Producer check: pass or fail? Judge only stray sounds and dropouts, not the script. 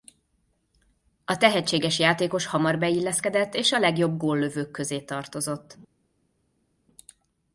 pass